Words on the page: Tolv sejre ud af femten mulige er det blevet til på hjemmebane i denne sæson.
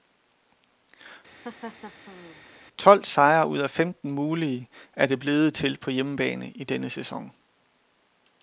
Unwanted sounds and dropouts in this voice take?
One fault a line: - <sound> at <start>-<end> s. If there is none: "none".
- laugh at 1.4-2.4 s